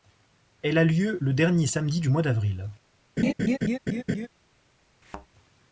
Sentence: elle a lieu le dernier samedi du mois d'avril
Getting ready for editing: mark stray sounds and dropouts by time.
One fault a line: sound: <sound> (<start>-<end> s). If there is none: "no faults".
sound: laugh (3.2-4.3 s)
sound: thud (5.0-5.3 s)